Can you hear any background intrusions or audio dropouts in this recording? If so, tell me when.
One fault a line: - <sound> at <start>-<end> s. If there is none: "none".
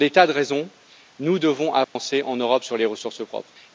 - dropout at 1.8-2.0 s